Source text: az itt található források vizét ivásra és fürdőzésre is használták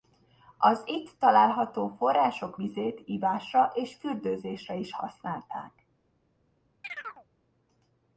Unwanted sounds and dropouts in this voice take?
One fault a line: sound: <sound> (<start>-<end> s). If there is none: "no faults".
sound: chirp (6.8-7.3 s)